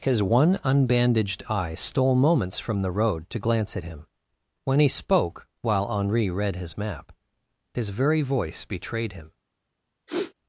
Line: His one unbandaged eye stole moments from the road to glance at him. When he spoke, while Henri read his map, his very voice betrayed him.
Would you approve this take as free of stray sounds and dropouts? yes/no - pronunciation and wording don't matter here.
no